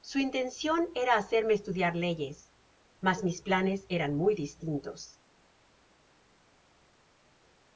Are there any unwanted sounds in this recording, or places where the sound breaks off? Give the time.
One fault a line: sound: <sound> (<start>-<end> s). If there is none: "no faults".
no faults